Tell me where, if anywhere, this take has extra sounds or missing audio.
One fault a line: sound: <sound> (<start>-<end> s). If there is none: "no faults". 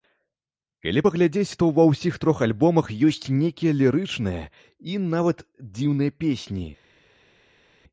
no faults